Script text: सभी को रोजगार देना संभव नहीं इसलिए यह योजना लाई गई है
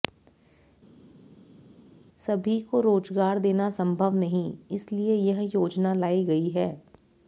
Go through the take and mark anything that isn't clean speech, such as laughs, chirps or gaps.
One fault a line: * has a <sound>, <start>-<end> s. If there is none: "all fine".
all fine